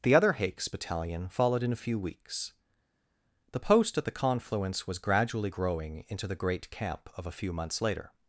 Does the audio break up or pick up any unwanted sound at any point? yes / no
no